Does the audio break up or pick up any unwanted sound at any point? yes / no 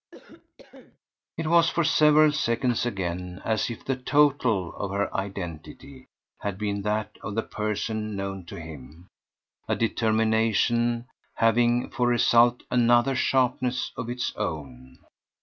yes